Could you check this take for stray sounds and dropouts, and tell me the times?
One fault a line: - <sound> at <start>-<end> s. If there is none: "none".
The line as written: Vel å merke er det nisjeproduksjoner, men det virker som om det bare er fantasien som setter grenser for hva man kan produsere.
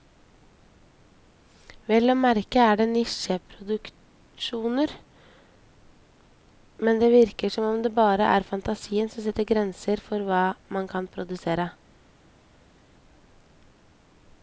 none